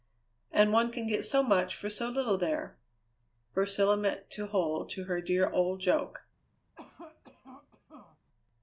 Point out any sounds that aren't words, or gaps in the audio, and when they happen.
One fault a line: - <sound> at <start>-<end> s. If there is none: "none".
- cough at 6.7-8.2 s